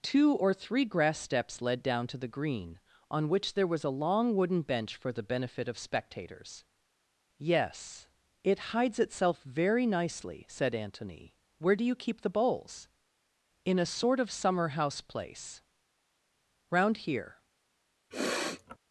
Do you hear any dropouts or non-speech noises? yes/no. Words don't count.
yes